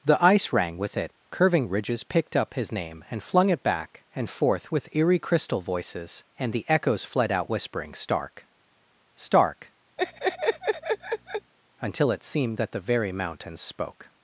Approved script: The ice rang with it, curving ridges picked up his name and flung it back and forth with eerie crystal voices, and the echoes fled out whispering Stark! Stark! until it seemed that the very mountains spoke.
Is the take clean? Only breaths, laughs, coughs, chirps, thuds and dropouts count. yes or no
no